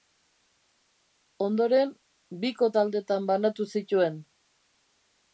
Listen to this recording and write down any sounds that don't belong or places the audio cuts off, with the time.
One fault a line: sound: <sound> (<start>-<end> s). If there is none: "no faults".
no faults